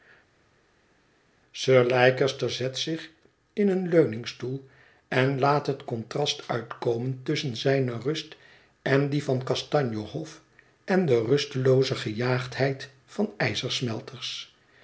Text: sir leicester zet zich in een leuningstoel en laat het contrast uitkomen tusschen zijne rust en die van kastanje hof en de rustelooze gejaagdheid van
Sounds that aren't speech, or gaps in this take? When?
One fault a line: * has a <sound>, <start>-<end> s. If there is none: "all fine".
all fine